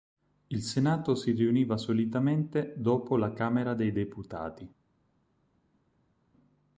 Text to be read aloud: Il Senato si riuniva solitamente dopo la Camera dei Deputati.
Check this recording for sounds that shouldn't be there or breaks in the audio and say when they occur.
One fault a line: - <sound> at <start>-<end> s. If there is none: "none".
none